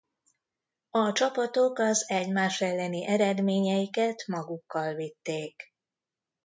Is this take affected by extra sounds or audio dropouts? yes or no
no